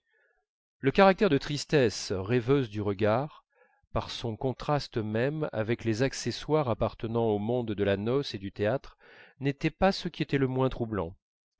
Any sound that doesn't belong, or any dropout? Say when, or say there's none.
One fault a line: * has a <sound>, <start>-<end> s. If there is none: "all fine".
all fine